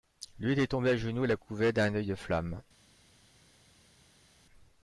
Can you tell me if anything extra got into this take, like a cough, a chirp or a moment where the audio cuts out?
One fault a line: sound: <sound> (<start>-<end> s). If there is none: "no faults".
no faults